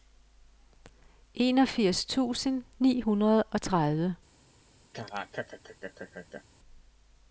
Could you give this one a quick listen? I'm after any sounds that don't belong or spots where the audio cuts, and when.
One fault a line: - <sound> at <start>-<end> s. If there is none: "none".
- laugh at 4.9-6.4 s